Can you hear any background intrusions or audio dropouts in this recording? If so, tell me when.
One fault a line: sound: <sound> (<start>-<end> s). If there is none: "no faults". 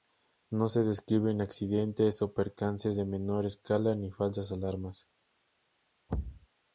sound: thud (6.1-6.5 s)